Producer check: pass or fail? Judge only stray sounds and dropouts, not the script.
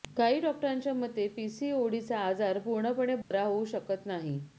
fail